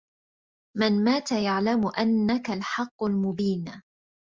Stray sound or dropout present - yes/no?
no